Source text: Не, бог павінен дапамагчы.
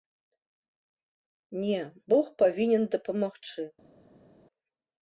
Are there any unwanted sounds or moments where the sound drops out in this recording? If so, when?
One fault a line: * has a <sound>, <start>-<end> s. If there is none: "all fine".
all fine